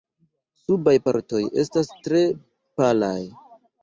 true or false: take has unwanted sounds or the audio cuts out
false